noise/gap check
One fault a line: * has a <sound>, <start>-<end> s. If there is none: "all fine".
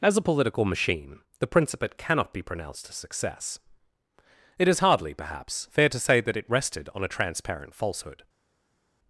all fine